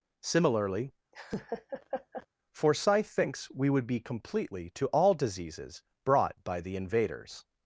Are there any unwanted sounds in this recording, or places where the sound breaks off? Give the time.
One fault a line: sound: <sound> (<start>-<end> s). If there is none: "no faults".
sound: laugh (1.1-2.3 s)